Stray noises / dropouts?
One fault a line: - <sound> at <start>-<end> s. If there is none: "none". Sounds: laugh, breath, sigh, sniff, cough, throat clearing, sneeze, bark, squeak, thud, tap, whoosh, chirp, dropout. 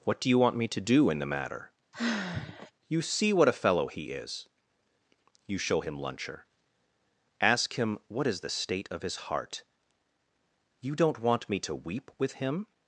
- sigh at 1.9-2.7 s